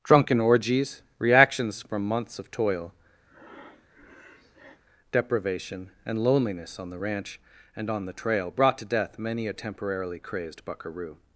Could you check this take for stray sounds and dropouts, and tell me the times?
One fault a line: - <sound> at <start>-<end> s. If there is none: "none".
- breath at 3.3-4.8 s